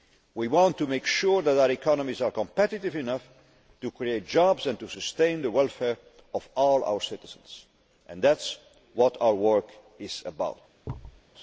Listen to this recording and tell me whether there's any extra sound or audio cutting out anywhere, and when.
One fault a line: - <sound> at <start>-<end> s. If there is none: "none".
- thud at 10.8-11.2 s